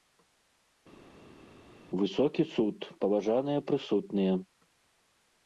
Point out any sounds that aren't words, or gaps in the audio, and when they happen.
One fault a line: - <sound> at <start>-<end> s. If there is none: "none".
none